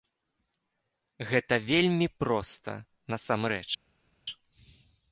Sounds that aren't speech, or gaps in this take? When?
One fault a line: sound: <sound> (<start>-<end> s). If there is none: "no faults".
no faults